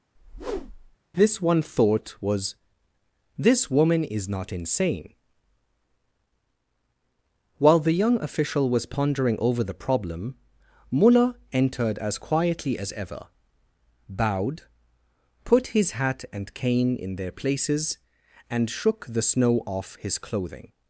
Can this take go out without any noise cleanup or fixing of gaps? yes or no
no